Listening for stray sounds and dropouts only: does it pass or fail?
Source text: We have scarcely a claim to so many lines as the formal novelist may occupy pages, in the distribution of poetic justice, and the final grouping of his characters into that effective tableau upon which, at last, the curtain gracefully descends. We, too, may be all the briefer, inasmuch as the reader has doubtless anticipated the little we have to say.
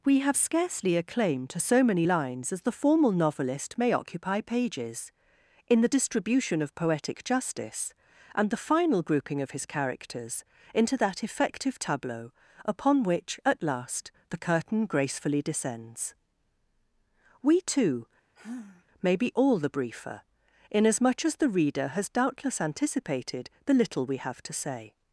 fail